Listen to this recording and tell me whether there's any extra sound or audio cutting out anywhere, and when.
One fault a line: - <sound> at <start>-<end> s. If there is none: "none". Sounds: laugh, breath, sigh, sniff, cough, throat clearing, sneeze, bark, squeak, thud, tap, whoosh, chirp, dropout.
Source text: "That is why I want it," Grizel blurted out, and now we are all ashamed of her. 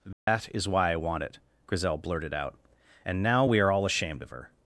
- dropout at 0.1-0.3 s